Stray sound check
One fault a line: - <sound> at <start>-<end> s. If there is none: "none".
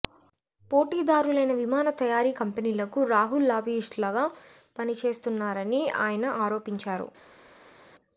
none